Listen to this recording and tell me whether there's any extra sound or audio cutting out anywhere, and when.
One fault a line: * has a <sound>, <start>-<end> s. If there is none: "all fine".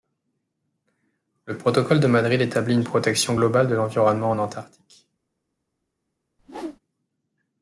* has a whoosh, 6.4-6.8 s